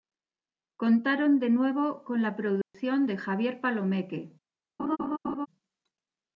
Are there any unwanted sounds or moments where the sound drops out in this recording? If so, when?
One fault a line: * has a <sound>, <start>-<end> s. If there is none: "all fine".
* has a dropout, 2.6-2.7 s
* has a laugh, 4.8-5.5 s